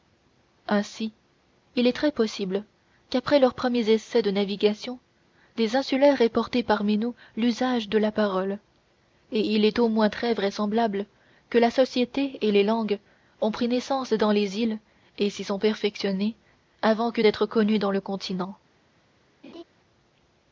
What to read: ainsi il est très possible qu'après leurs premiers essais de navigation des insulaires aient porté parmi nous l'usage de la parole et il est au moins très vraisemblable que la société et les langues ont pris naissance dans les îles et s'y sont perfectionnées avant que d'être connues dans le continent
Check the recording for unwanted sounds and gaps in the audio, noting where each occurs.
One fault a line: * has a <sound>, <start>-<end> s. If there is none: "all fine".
* has a laugh, 19.4-19.6 s